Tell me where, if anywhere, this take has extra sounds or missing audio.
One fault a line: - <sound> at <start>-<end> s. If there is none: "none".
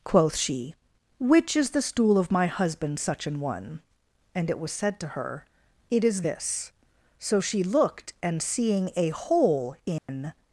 - dropout at 10.0-10.1 s